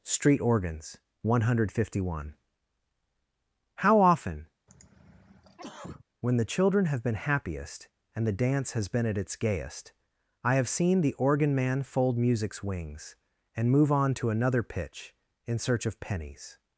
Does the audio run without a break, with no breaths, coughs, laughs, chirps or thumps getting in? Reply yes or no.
no